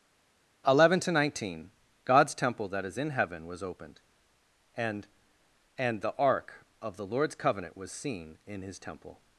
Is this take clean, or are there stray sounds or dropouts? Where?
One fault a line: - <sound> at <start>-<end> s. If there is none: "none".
none